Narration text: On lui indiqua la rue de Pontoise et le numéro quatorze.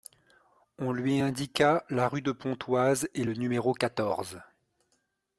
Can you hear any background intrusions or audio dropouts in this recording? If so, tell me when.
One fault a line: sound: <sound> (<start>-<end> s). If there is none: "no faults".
no faults